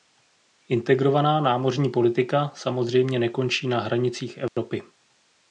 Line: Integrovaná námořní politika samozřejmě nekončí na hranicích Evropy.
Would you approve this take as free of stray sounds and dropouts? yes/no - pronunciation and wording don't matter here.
no